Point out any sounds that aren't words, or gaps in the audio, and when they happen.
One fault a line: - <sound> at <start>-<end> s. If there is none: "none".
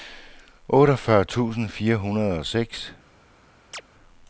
- chirp at 3.7-3.8 s